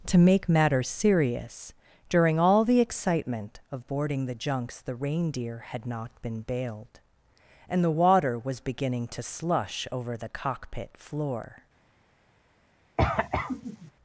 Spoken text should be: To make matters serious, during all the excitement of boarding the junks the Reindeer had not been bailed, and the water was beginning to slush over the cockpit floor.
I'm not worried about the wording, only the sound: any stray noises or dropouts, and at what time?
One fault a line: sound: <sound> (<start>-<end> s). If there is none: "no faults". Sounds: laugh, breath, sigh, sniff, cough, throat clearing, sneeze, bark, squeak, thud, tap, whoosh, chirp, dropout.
sound: cough (13.0-13.9 s)